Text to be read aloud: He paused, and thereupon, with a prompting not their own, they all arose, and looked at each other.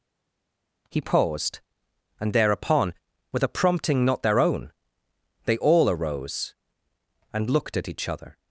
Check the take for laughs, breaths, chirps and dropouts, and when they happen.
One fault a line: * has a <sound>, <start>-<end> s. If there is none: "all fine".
all fine